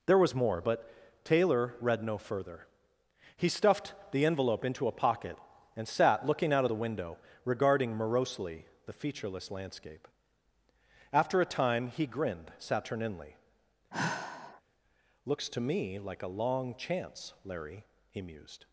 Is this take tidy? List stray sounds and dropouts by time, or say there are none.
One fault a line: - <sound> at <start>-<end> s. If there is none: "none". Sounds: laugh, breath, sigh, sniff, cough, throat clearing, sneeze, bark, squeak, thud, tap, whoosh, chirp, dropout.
- sigh at 13.9-14.6 s